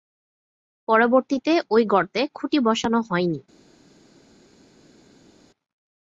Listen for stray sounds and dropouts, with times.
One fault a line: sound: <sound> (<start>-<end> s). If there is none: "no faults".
no faults